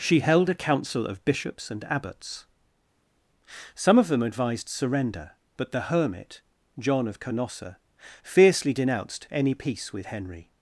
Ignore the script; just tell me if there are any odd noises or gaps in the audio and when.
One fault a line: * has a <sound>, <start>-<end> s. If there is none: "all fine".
all fine